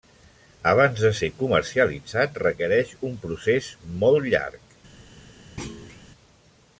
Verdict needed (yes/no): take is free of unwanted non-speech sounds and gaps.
no